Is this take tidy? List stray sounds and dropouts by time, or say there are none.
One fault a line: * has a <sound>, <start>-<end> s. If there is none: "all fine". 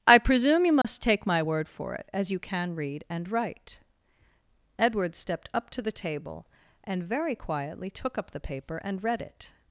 * has a dropout, 0.8-0.8 s